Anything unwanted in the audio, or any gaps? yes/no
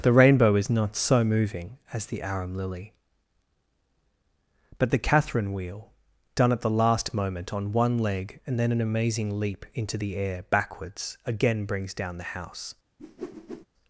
yes